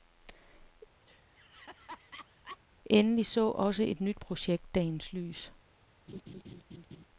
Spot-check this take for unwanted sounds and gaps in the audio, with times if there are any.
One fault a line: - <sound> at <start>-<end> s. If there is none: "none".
- laugh at 1.1-2.6 s
- laugh at 6.1-7.1 s